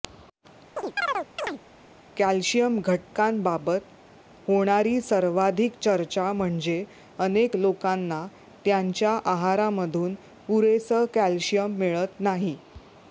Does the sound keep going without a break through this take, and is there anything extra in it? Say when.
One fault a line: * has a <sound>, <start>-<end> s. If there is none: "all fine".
* has a chirp, 0.8-1.6 s